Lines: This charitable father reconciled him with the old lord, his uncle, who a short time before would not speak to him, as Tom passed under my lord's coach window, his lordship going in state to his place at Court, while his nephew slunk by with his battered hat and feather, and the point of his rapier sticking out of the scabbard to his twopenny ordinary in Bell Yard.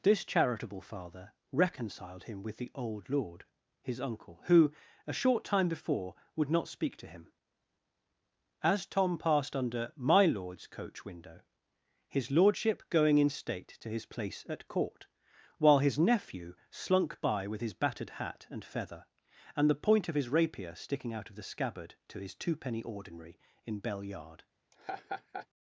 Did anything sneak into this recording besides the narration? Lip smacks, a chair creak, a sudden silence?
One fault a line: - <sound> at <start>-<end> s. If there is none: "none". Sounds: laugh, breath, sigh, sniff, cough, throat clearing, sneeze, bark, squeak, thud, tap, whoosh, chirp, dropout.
- laugh at 24.7-25.5 s